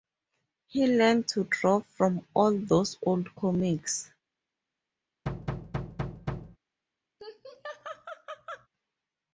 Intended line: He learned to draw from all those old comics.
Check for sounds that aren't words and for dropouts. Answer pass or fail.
fail